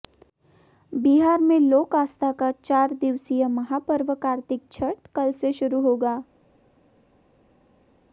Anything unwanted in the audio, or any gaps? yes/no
no